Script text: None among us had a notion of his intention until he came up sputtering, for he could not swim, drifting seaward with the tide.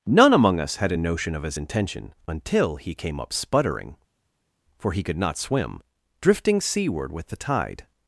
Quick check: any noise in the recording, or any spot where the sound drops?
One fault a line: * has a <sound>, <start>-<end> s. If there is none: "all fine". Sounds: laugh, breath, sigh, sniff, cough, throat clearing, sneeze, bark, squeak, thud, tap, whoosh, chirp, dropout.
all fine